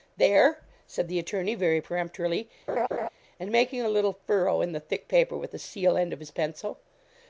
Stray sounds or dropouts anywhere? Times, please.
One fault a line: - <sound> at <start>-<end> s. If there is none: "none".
- laugh at 2.7-3.1 s